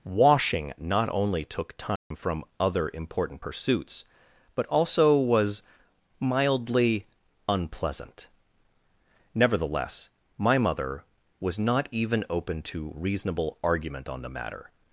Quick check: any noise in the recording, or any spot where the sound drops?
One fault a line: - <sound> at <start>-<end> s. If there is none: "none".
- dropout at 2.0-2.1 s